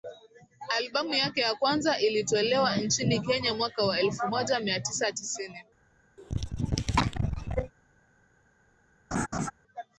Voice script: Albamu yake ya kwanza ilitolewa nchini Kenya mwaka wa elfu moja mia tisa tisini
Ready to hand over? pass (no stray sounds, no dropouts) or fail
fail